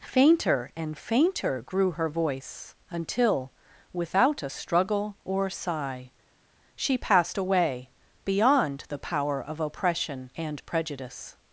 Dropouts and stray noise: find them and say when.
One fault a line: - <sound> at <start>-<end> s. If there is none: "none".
none